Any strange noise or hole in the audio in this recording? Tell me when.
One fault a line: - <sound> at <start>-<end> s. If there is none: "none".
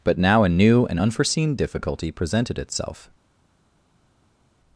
none